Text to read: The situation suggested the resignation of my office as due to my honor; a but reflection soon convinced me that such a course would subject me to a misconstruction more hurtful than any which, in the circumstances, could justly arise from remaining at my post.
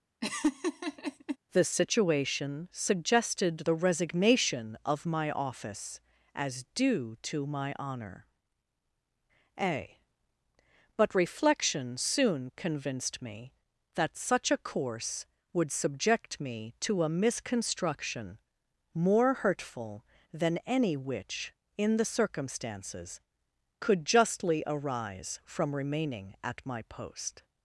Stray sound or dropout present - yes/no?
yes